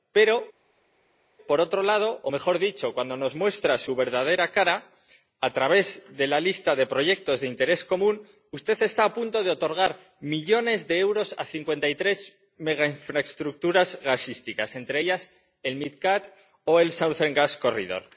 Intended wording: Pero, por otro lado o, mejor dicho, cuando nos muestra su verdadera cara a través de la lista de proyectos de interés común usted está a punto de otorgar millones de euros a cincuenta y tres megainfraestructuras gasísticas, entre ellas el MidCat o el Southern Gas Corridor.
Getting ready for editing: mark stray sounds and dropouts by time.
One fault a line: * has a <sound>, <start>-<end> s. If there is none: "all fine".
all fine